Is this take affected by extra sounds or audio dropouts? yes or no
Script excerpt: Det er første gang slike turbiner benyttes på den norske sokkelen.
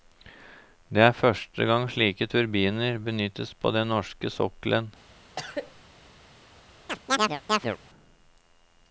yes